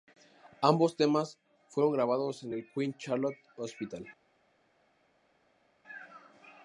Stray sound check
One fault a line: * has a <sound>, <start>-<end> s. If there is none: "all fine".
all fine